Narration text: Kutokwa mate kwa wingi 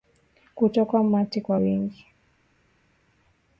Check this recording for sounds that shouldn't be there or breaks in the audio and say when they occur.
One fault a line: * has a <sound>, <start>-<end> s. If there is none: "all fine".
all fine